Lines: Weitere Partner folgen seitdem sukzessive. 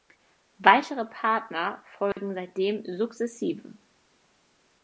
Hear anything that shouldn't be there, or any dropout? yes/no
yes